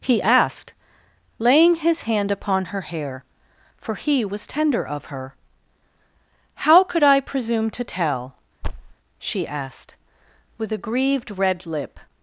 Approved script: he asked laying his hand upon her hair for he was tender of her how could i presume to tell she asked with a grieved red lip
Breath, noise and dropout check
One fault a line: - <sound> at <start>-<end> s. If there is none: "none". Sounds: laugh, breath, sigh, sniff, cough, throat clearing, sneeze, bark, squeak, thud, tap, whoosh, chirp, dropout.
- thud at 8.6-8.9 s